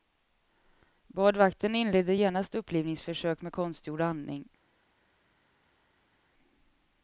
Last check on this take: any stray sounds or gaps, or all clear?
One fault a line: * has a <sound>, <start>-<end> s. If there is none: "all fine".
all fine